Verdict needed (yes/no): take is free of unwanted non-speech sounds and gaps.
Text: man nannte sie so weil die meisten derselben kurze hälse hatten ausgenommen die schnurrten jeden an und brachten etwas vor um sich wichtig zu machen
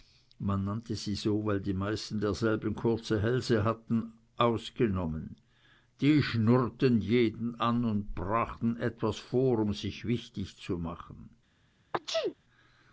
no